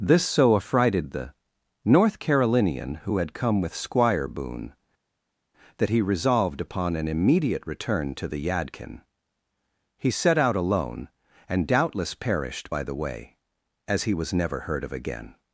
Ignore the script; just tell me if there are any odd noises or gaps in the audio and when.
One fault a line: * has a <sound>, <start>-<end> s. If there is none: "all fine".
all fine